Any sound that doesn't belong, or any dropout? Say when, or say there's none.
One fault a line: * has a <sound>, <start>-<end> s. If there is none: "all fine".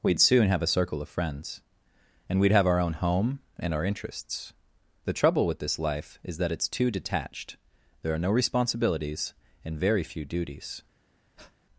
* has a breath, 11.4-11.6 s